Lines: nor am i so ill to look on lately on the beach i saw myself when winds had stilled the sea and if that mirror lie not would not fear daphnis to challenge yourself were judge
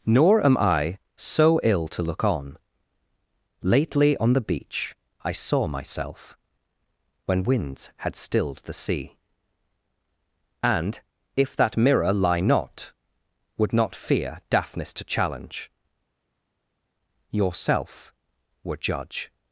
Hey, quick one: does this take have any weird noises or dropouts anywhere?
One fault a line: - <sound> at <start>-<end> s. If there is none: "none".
none